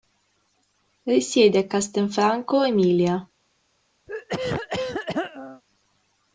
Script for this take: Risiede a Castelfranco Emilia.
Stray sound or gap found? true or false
true